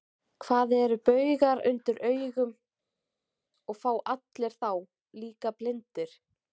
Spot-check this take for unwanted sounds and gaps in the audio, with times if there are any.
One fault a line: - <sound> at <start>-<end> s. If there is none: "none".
none